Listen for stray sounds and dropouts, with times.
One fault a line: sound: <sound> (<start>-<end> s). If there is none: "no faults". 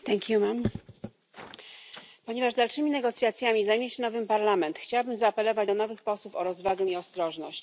no faults